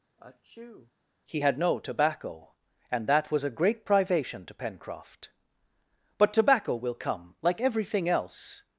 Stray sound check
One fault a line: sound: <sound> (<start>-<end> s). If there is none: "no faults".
sound: sneeze (0.2-0.9 s)